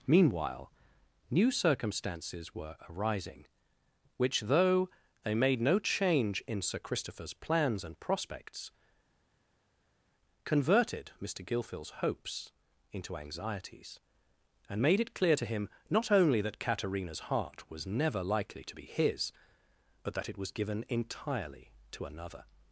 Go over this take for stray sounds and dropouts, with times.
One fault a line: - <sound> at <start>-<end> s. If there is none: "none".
none